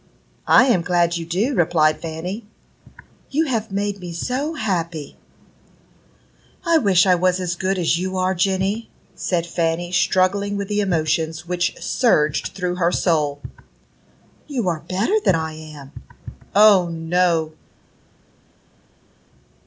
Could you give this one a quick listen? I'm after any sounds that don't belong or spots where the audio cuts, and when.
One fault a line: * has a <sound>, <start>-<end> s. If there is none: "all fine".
all fine